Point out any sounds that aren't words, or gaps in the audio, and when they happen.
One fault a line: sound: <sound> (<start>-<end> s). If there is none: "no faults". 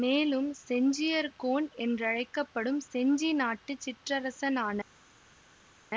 no faults